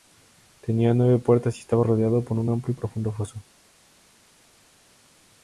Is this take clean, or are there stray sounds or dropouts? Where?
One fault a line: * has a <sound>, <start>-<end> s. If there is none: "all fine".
all fine